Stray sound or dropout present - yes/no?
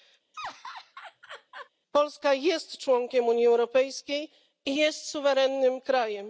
yes